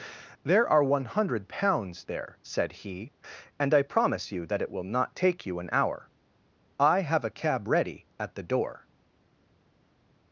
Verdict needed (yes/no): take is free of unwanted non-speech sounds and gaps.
yes